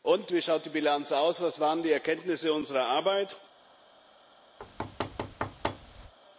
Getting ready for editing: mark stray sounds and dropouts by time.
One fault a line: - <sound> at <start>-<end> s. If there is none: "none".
- thud at 4.6-6.1 s